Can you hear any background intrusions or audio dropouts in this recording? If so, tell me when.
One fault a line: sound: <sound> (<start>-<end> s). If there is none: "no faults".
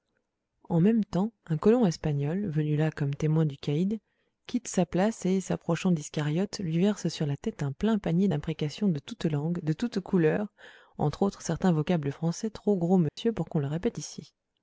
sound: dropout (13.1-13.2 s)